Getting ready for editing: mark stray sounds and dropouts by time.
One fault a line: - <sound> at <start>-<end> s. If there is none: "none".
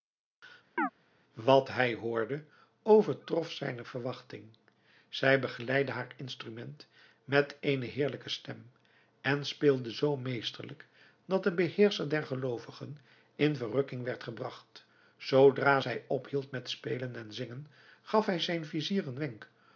- chirp at 0.8-0.9 s